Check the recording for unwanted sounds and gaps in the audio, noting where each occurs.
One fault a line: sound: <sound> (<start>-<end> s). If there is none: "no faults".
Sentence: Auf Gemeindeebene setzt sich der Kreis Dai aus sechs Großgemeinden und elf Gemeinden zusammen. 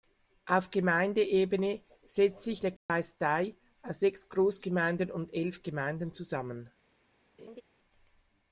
sound: dropout (2.8-2.9 s)
sound: laugh (7.4-7.6 s)